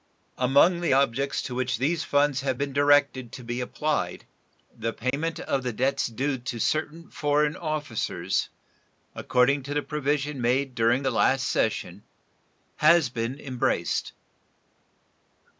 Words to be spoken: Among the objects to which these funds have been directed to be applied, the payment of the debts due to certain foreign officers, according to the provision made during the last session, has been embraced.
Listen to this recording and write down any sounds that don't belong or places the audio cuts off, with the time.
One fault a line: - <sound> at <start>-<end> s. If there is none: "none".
- dropout at 5.1-5.1 s